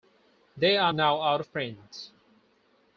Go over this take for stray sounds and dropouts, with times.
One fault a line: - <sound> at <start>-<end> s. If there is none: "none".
none